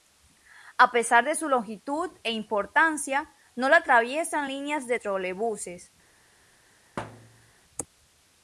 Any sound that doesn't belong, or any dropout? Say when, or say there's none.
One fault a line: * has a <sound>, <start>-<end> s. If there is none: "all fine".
* has a thud, 7.0-7.5 s